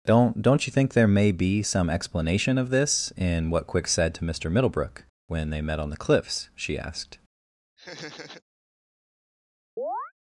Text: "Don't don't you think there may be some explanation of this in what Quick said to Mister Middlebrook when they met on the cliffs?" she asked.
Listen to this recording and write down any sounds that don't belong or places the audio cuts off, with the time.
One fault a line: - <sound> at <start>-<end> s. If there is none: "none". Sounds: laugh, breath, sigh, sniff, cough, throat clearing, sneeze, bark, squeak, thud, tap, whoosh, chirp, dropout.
- laugh at 7.8-8.4 s
- chirp at 9.8-10.1 s